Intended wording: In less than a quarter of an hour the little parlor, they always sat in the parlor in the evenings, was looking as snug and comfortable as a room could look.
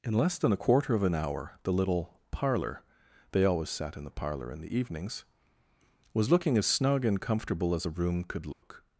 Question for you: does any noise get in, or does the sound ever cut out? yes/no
yes